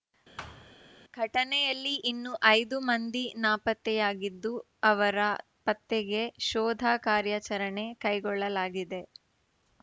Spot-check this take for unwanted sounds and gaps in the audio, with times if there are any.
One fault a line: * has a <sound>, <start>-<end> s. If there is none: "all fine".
* has a thud, 0.4-0.7 s